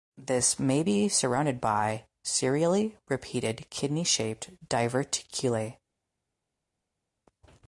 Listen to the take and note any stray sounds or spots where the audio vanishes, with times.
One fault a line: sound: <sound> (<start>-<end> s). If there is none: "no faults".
no faults